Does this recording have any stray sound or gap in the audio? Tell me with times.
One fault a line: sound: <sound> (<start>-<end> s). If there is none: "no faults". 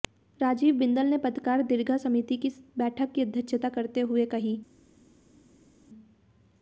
no faults